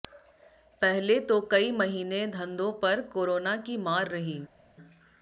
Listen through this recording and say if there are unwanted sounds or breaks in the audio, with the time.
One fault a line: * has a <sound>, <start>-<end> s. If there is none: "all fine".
all fine